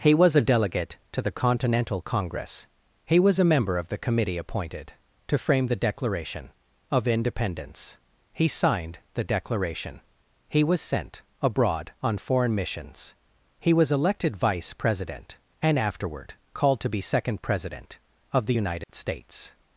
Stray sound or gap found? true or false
true